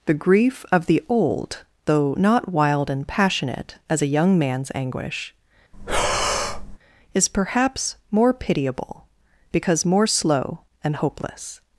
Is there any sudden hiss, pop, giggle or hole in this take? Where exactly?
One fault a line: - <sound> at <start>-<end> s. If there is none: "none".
- breath at 5.7-6.8 s